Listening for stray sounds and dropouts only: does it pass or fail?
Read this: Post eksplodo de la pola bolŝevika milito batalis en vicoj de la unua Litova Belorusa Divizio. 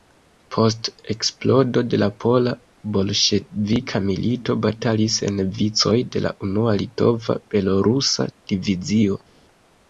pass